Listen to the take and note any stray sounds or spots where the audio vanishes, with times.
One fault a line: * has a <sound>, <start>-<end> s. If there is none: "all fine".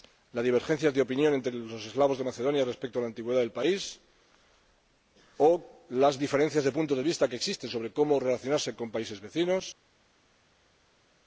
all fine